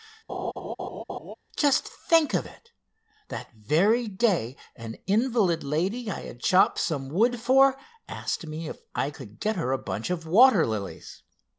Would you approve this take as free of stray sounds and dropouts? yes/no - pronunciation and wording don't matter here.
no